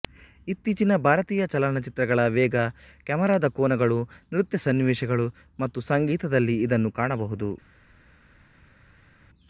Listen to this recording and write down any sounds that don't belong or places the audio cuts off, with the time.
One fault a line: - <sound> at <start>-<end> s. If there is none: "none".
none